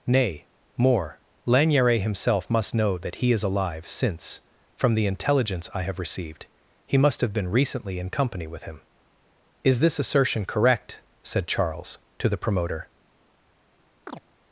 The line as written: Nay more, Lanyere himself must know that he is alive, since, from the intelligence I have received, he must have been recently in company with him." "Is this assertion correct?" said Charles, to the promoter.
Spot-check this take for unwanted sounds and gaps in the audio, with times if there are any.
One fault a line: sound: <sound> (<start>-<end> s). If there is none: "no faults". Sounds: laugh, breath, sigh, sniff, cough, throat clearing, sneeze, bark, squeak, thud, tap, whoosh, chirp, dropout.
sound: chirp (14.1-14.2 s)